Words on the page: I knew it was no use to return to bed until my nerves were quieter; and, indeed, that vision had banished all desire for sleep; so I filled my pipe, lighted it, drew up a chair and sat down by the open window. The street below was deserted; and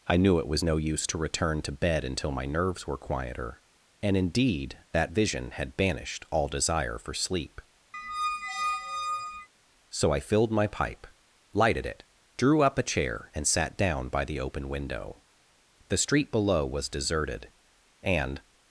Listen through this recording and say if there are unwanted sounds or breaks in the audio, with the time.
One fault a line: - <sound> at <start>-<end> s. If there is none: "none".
- squeak at 7.9-9.5 s